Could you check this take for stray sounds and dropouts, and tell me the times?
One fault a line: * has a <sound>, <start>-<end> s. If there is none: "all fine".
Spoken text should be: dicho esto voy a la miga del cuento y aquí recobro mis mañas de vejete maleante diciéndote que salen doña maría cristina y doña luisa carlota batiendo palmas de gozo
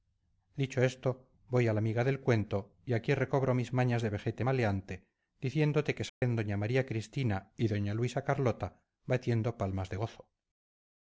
* has a dropout, 6.1-6.2 s